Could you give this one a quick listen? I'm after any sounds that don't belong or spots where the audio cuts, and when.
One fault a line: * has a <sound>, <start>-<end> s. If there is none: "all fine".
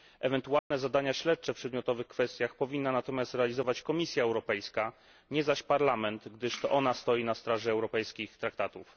* has a dropout, 0.6-0.7 s